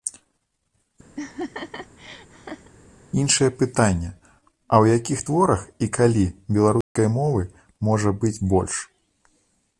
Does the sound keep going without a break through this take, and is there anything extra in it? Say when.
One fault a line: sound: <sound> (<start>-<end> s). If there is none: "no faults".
sound: laugh (1.2-2.7 s)
sound: dropout (6.8-7.0 s)